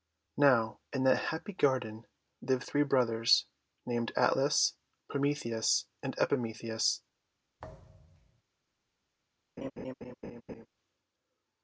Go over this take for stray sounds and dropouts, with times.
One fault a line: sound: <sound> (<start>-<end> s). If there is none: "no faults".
sound: thud (7.6-8.4 s)
sound: laugh (9.6-10.7 s)